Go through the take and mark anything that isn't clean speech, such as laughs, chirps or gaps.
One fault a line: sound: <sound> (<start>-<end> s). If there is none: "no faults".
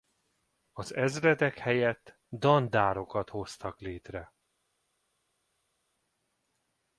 no faults